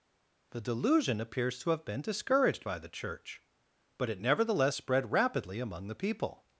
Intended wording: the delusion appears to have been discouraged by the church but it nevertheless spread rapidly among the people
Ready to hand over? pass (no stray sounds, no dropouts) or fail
pass